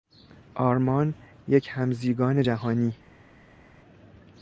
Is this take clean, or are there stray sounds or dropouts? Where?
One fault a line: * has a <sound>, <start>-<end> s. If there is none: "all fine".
all fine